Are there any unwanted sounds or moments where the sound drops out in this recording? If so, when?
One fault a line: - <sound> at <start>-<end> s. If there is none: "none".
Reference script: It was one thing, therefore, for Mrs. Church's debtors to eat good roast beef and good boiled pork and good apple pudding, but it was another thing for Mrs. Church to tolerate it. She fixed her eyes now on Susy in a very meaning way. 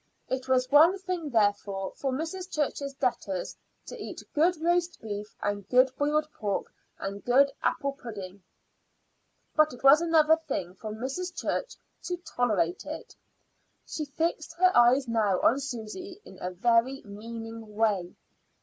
none